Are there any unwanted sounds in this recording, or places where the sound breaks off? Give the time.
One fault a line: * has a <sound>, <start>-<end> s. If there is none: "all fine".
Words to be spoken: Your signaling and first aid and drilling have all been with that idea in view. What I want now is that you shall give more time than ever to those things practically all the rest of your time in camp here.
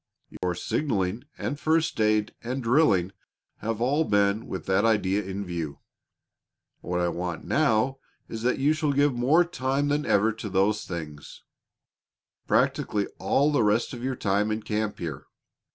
* has a dropout, 0.4-0.4 s